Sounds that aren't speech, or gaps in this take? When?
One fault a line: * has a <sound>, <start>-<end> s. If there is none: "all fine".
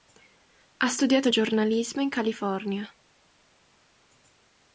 all fine